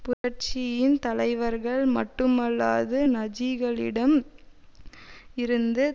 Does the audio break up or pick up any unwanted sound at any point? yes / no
yes